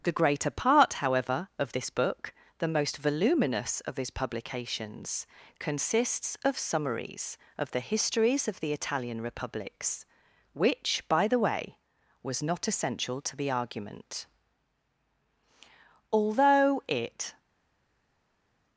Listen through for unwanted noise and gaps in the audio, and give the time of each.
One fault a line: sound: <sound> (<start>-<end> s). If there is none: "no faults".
no faults